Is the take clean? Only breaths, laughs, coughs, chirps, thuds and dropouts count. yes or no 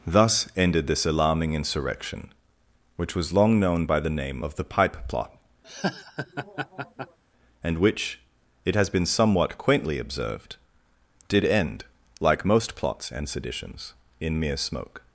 no